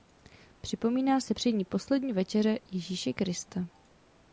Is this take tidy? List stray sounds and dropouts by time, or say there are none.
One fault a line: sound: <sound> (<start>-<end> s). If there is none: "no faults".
no faults